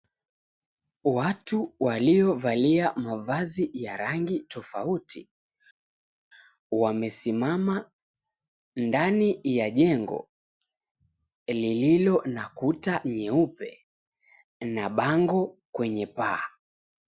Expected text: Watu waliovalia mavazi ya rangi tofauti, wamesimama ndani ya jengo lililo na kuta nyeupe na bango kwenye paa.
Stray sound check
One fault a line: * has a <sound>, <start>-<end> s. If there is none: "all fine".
all fine